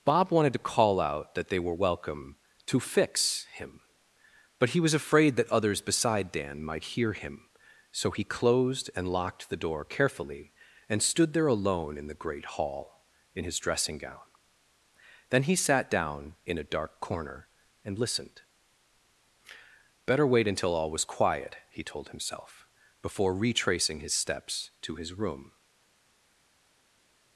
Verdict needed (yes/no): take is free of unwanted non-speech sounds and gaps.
yes